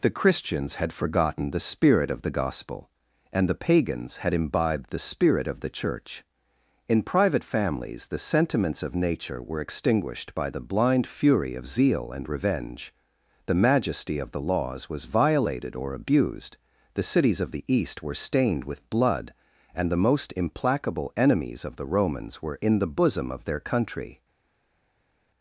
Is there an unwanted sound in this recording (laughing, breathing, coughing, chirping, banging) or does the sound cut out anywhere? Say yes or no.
no